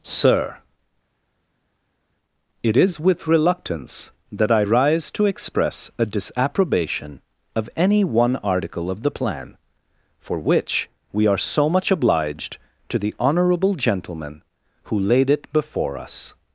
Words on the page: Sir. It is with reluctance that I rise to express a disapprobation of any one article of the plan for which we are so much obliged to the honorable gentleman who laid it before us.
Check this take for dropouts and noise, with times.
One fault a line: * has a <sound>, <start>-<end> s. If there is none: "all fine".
all fine